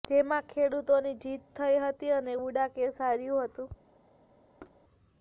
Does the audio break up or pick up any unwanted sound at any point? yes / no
yes